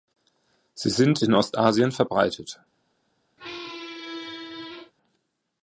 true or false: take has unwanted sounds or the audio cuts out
true